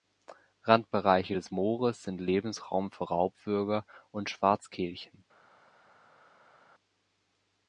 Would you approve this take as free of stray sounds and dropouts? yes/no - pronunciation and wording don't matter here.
yes